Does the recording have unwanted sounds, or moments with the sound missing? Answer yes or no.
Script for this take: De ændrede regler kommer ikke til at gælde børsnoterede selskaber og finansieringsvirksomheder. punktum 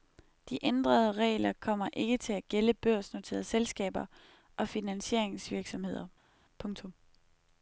no